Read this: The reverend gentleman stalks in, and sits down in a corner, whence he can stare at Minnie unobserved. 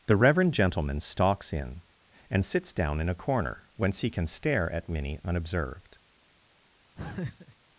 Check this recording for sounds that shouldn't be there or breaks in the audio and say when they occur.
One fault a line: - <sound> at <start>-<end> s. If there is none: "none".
- laugh at 7.0-7.6 s